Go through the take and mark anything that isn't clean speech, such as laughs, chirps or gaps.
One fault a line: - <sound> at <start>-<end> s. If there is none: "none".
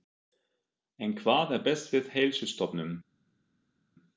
none